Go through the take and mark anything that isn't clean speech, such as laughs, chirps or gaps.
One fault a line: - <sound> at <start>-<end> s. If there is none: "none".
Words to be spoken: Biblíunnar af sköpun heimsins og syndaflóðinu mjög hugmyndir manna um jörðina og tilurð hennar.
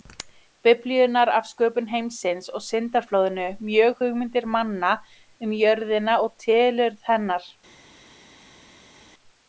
none